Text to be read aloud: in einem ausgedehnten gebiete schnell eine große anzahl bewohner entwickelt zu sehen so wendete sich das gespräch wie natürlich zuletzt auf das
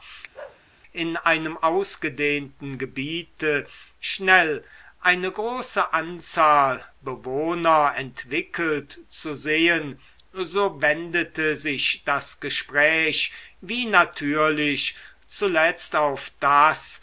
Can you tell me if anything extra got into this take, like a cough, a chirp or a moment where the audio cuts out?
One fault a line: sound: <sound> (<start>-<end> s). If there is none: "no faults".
sound: bark (0.3-0.6 s)